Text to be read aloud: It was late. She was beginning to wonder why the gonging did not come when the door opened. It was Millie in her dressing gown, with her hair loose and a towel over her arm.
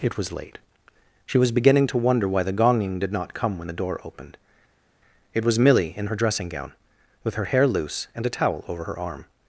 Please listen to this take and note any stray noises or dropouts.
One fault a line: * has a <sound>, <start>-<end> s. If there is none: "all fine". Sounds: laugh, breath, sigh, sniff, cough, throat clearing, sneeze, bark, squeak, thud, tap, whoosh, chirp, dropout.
all fine